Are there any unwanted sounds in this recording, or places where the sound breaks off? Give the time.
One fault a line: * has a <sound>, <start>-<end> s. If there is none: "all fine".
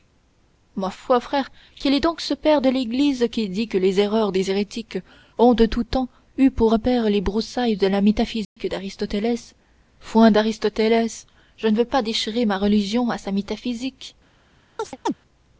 * has a dropout, 8.4-8.6 s
* has a chirp, 14.8-15.1 s